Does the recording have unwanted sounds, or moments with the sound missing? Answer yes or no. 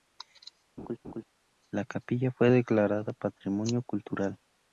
yes